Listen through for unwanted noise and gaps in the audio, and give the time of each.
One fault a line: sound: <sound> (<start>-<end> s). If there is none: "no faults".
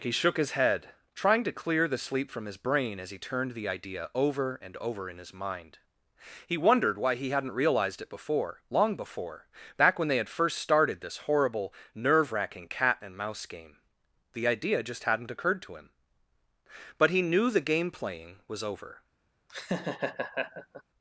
sound: laugh (19.5-20.8 s)